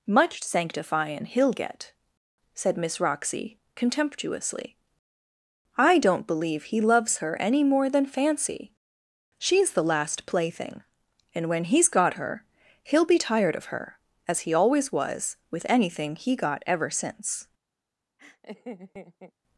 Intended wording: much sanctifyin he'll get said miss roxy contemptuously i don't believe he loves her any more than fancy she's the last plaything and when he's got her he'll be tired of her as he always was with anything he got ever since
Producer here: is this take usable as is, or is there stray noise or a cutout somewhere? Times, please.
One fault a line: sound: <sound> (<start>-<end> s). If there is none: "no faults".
sound: laugh (18.2-19.3 s)